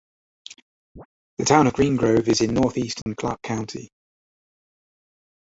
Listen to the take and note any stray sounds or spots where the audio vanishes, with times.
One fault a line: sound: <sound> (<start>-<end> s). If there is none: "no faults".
sound: chirp (1.0-1.1 s)
sound: dropout (3.0-3.1 s)